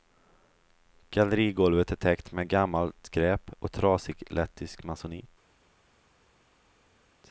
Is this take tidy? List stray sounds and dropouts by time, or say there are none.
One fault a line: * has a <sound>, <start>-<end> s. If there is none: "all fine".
all fine